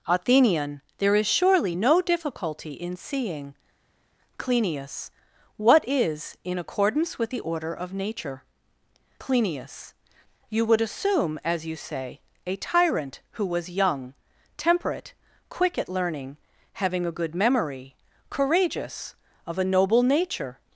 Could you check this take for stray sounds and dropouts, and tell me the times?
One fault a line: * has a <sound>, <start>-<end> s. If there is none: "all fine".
all fine